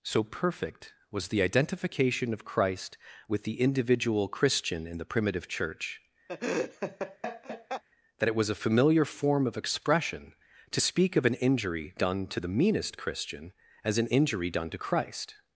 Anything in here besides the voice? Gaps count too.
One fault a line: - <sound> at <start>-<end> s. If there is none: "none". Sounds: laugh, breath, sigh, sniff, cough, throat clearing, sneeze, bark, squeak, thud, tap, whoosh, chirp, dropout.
- laugh at 6.3-7.8 s